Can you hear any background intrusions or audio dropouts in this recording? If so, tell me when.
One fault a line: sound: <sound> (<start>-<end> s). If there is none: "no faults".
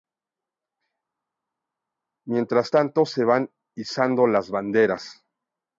no faults